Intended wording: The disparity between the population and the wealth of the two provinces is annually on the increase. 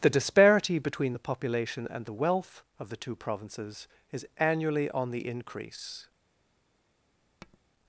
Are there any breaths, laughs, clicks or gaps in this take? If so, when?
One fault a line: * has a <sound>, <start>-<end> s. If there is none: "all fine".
* has a tap, 7.4-7.6 s